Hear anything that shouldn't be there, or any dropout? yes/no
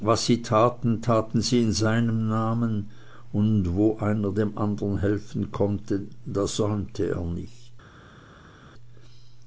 no